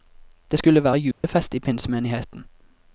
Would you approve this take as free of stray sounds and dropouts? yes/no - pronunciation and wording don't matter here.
no